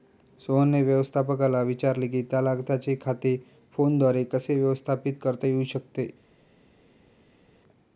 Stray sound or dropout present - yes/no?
no